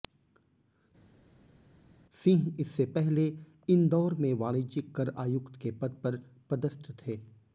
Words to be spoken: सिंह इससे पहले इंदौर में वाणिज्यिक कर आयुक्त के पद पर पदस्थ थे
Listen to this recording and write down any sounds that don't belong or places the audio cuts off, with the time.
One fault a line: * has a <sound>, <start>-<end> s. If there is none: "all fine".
all fine